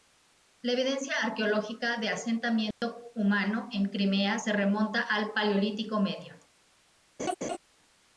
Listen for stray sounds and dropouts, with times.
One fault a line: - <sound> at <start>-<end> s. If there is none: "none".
- dropout at 2.7-2.8 s
- laugh at 7.2-7.6 s